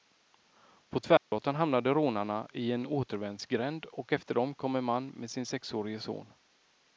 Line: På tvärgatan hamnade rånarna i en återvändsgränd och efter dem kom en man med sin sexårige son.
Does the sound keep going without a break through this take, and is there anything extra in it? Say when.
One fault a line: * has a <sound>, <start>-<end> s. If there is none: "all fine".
* has a dropout, 1.2-1.3 s